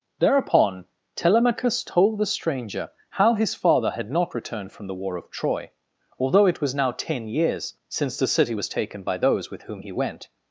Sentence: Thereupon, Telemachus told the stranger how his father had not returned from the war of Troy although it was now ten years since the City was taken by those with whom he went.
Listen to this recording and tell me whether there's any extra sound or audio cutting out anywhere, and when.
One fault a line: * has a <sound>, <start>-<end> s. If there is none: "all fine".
all fine